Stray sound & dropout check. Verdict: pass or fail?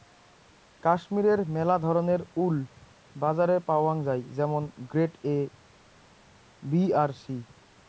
pass